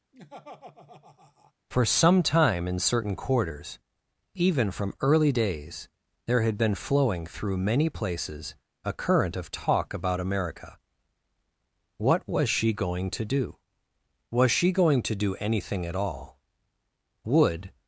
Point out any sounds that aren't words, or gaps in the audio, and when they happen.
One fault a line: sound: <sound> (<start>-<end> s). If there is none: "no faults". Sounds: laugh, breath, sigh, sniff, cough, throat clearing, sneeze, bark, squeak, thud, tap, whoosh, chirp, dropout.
sound: laugh (0.1-1.5 s)